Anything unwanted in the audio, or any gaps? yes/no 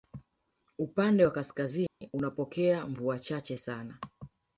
yes